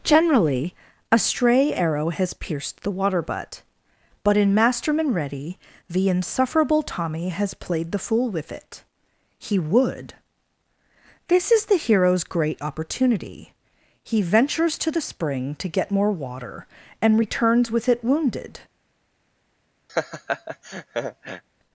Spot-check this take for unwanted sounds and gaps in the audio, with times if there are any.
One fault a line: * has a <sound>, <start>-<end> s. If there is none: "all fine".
* has a laugh, 19.9-21.4 s